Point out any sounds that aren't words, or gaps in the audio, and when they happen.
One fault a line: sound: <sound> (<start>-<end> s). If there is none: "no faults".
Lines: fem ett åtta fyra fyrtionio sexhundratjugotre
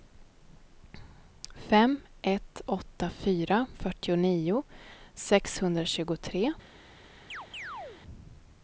sound: chirp (7.3-8.0 s)